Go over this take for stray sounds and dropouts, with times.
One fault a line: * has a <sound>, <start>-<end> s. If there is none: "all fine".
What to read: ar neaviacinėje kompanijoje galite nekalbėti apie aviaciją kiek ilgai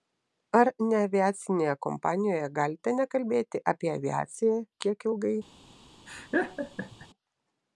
* has a laugh, 6.1-7.1 s